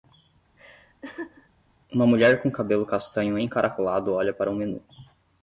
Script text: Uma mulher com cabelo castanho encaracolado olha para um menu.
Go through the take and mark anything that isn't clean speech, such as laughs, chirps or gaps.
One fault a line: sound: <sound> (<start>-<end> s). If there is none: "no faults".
sound: laugh (0.6-1.5 s)